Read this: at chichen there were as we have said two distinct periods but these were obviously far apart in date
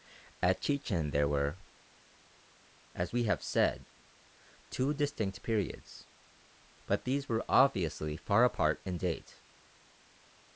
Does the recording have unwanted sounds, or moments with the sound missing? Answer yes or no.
no